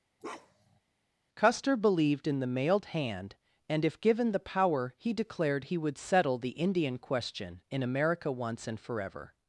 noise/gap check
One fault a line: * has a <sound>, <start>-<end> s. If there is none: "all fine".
* has a bark, 0.2-0.8 s